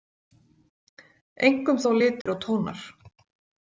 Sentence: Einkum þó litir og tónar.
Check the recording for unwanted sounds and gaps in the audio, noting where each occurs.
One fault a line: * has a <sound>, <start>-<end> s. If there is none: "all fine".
* has a dropout, 2.2-2.3 s